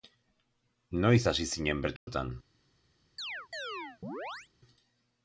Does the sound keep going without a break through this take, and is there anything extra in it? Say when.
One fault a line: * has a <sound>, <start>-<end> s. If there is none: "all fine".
* has a dropout, 2.0-2.1 s
* has a chirp, 3.2-4.5 s